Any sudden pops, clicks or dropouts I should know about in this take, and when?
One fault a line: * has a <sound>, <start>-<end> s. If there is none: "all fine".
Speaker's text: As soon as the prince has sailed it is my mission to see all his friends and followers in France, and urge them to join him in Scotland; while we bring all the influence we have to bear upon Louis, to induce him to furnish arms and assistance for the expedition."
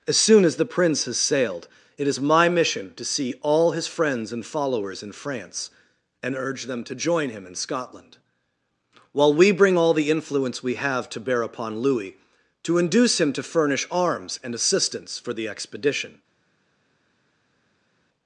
all fine